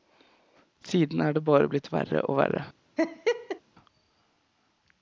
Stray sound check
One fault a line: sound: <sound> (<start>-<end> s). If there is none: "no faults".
sound: laugh (3.0-3.6 s)